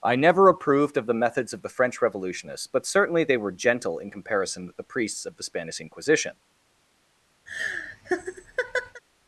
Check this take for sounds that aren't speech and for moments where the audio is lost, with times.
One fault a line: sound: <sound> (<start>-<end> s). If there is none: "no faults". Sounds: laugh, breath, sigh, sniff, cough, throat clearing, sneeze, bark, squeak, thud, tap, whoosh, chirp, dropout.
sound: laugh (7.5-9.0 s)